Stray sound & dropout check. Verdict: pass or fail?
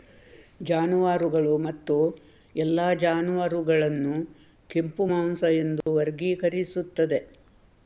fail